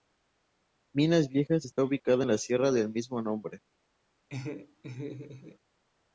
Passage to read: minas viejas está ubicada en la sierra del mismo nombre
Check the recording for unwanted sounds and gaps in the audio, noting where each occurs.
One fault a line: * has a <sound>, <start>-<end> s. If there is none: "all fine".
* has a laugh, 4.3-5.6 s